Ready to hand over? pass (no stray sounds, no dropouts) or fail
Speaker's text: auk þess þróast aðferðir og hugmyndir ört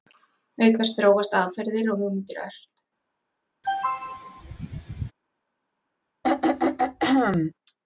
fail